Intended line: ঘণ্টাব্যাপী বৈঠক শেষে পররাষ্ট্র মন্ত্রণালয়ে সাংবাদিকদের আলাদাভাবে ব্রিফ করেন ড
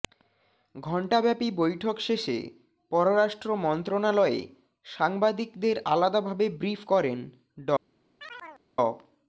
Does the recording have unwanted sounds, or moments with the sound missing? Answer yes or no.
yes